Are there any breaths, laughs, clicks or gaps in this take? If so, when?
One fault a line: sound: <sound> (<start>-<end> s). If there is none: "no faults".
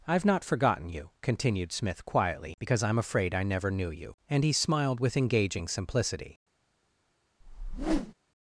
sound: whoosh (7.4-8.1 s)